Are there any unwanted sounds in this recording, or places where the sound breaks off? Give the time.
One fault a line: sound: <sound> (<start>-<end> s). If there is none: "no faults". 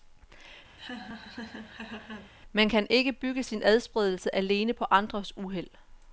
sound: laugh (0.8-2.3 s)